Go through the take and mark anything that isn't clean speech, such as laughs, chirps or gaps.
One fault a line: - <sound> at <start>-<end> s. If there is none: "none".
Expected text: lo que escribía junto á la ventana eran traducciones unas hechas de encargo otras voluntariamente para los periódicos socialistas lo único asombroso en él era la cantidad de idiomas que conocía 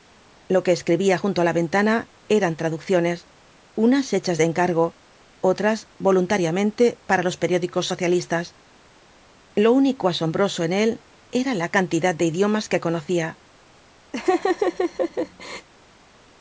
- laugh at 14.1-15.7 s